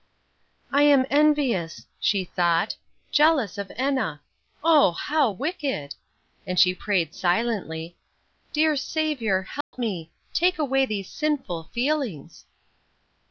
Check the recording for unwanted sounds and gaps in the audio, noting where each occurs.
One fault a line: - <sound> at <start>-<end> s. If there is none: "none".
- dropout at 9.6-9.7 s